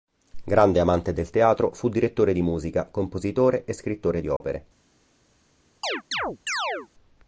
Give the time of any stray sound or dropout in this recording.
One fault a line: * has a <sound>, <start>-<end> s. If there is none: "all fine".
* has a dropout, 4.4-4.4 s
* has a chirp, 5.8-6.9 s